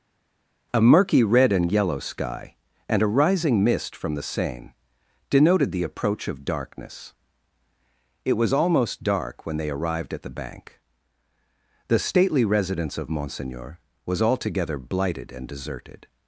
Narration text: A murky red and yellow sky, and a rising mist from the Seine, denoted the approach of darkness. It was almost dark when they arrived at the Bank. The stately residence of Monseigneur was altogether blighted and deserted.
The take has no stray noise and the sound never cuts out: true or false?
true